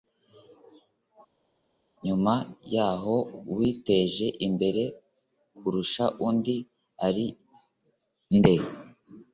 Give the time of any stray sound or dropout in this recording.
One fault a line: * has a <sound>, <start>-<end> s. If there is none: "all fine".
all fine